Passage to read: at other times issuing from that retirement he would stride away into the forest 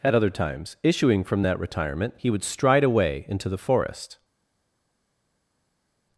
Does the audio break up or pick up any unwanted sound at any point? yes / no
no